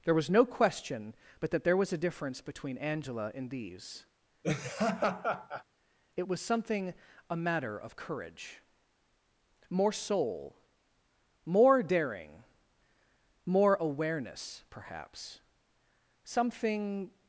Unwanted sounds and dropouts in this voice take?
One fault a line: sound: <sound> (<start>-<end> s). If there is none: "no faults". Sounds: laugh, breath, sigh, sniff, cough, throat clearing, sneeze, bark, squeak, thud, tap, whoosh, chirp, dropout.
sound: laugh (4.4-5.6 s)